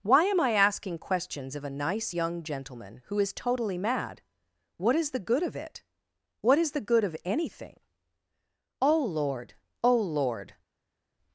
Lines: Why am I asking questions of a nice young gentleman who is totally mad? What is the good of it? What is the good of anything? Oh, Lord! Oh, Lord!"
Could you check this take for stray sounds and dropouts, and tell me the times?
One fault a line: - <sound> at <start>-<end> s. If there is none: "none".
none